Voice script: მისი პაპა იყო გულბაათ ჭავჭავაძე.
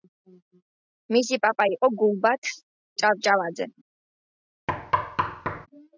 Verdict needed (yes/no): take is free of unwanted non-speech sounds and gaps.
no